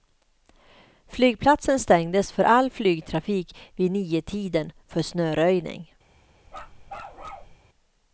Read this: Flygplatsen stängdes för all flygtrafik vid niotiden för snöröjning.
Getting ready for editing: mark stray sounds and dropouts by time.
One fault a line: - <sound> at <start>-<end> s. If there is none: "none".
- bark at 6.5-7.6 s